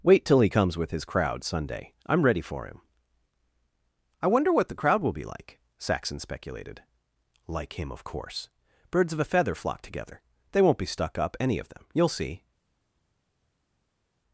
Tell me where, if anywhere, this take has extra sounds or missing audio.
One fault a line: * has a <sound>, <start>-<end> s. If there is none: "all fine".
all fine